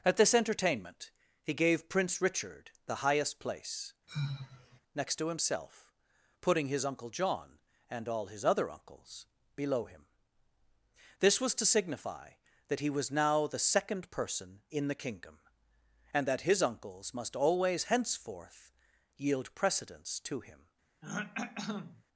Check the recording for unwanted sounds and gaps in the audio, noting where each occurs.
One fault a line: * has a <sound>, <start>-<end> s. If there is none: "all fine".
* has a sigh, 4.1-4.8 s
* has a throat clearing, 21.0-22.0 s